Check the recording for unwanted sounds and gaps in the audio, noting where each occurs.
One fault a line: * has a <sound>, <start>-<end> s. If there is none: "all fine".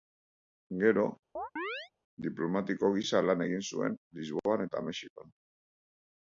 * has a chirp, 1.4-1.9 s